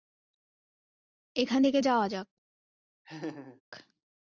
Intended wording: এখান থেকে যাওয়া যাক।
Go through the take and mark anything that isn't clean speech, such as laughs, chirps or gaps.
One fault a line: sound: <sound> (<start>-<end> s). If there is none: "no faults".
sound: laugh (3.0-3.6 s)